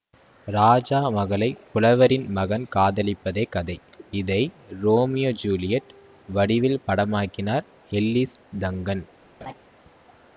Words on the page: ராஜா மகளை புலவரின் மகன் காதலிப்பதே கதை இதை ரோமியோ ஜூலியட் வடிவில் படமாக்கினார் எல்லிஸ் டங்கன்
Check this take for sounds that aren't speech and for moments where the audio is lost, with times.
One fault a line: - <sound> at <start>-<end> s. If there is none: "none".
- laugh at 9.4-9.5 s